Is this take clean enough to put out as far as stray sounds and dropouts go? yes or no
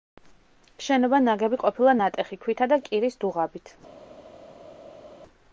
yes